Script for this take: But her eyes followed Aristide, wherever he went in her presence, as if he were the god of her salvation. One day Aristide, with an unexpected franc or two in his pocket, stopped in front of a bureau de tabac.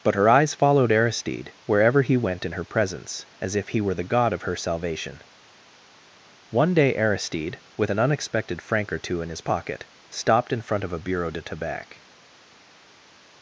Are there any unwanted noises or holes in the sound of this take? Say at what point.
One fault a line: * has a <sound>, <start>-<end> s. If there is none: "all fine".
all fine